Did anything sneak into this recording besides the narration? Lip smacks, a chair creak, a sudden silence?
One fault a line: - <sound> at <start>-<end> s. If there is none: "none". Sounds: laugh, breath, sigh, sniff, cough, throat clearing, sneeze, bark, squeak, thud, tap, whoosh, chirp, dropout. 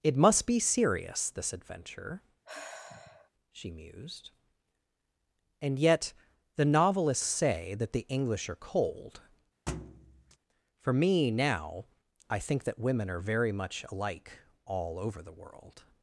- sigh at 2.4-3.3 s
- thud at 9.7-10.4 s